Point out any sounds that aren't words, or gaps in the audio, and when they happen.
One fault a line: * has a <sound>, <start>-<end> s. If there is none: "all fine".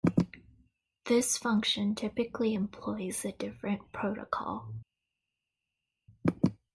all fine